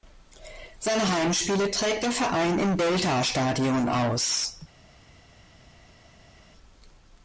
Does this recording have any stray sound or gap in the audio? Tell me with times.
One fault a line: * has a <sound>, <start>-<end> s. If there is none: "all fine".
all fine